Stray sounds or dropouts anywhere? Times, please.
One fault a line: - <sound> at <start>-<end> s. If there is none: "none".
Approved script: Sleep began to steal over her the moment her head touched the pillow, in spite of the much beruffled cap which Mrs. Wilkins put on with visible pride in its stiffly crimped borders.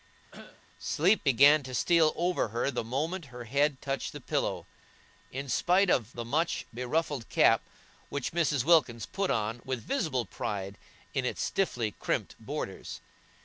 - cough at 0.3-0.6 s